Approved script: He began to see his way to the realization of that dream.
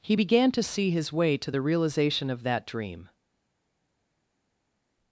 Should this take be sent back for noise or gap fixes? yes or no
no